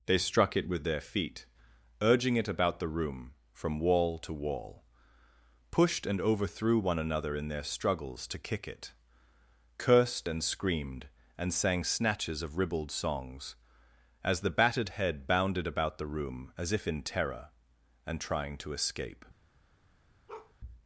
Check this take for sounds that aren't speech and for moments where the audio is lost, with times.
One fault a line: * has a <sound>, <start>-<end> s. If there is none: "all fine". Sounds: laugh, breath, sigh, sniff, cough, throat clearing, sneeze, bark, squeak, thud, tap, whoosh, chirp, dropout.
* has a bark, 20.3-20.5 s